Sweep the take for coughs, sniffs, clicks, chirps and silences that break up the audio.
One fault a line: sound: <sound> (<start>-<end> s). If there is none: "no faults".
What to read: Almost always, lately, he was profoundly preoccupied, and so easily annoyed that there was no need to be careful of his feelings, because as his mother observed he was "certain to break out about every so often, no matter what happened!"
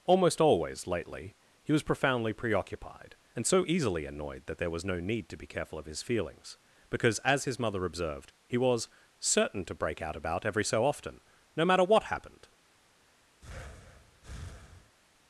sound: breath (13.4-15.0 s)